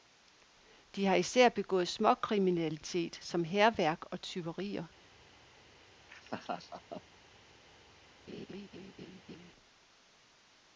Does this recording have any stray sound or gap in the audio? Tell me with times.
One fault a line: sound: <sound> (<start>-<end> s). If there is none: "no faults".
sound: laugh (6.1-7.0 s)
sound: laugh (8.3-9.5 s)